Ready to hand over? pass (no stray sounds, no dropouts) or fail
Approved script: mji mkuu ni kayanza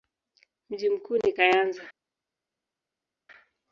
pass